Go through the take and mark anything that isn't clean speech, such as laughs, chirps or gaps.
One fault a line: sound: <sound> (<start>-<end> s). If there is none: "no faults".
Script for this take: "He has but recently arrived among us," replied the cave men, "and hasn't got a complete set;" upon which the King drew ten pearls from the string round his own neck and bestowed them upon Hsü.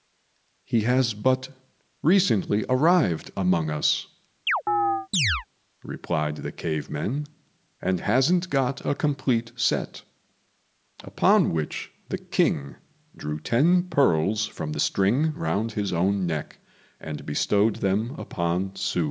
sound: chirp (4.5-5.5 s)